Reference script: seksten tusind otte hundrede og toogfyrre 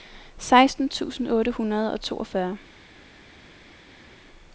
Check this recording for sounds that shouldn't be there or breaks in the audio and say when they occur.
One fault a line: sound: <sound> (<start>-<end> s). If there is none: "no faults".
no faults